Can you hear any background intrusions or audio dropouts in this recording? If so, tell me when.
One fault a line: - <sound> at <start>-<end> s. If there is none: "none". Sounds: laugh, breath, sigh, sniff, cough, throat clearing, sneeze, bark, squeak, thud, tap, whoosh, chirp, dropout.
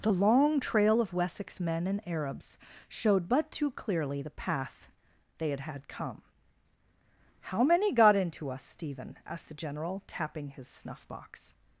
none